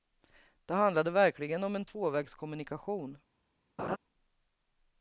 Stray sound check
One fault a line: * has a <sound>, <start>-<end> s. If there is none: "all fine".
* has a laugh, 3.8-4.0 s